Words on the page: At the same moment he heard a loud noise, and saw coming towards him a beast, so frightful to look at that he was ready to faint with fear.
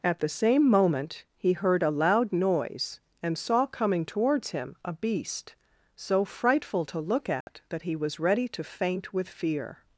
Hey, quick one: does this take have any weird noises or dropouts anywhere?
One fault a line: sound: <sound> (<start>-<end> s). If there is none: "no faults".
sound: dropout (7.4-7.5 s)